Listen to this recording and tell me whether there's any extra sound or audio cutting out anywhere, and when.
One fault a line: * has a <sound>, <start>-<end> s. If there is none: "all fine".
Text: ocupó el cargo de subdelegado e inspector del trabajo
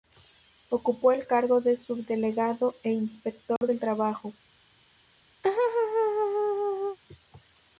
* has a dropout, 3.6-3.6 s
* has a laugh, 5.4-7.0 s